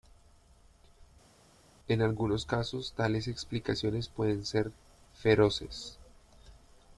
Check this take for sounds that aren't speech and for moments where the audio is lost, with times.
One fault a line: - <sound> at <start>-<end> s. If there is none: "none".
none